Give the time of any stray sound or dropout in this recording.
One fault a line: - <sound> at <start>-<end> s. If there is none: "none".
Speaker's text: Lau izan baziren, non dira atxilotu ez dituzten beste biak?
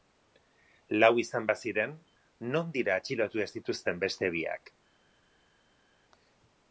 none